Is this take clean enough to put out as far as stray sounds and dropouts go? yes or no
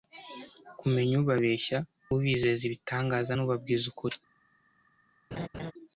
no